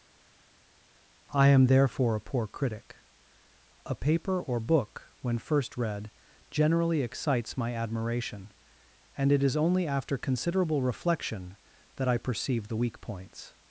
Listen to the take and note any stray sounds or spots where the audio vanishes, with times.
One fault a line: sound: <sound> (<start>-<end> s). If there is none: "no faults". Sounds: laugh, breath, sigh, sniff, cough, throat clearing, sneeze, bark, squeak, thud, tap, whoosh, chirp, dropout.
no faults